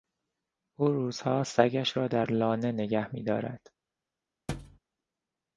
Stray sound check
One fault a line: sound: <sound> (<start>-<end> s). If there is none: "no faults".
sound: thud (4.5-4.8 s)